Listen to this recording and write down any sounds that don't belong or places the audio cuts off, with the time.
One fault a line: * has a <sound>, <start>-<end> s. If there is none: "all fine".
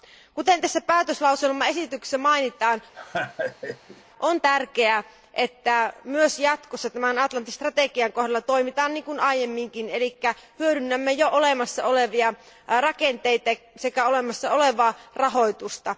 * has a laugh, 2.9-4.0 s